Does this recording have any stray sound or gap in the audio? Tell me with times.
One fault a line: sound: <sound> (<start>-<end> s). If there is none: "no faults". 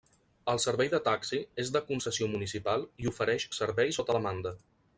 no faults